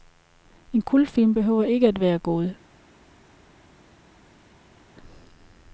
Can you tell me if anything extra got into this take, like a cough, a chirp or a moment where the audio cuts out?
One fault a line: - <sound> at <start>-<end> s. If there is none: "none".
none